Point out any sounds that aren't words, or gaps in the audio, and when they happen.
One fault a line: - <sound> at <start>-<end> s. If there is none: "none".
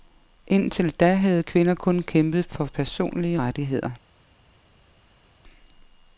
none